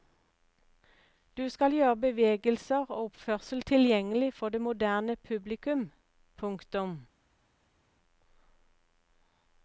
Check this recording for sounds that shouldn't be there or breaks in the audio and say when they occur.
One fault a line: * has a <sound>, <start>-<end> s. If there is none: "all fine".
all fine